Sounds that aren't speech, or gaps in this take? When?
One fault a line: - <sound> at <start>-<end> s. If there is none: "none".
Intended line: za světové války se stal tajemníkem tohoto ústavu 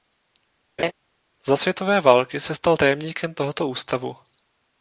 - laugh at 0.8-0.9 s